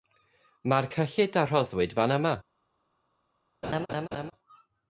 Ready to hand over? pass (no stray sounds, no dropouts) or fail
fail